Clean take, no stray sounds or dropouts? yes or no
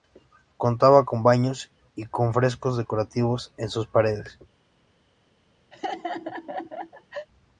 no